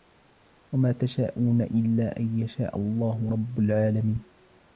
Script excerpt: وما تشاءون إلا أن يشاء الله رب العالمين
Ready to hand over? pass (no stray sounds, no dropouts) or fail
pass